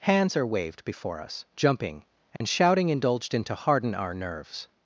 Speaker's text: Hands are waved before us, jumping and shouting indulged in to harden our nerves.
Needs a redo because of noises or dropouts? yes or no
yes